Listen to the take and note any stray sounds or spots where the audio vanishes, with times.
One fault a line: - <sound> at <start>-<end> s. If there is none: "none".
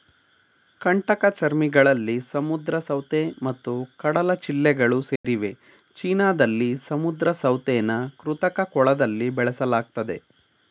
- dropout at 5.2-5.2 s